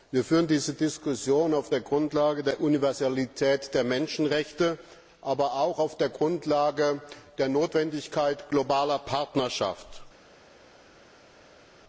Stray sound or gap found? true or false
false